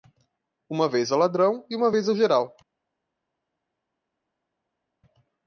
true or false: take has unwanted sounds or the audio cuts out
false